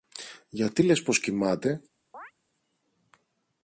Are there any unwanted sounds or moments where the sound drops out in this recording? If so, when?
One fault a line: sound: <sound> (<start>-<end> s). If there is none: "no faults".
sound: chirp (2.1-2.3 s)